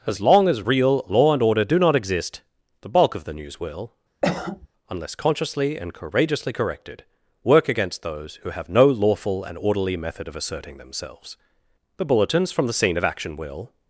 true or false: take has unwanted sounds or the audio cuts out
true